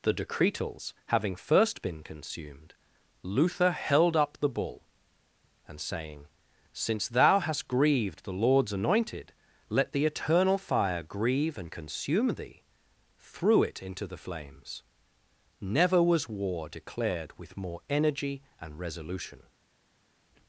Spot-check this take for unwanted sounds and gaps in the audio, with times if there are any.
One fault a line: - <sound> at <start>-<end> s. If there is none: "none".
none